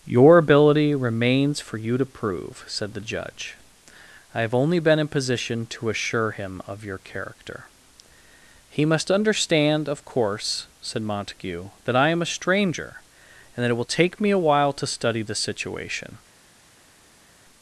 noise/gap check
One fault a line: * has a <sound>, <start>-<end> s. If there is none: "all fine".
all fine